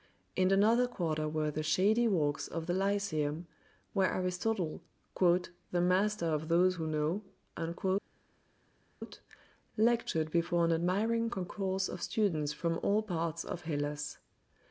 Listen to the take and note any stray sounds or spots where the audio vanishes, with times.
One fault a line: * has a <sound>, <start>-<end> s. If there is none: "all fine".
all fine